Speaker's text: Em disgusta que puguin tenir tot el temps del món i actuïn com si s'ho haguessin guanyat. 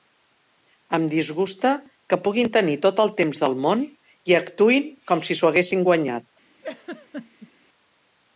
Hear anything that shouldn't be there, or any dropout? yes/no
yes